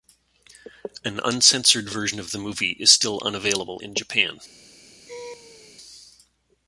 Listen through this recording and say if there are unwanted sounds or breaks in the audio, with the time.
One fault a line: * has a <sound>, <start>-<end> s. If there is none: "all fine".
* has a laugh, 5.1-5.8 s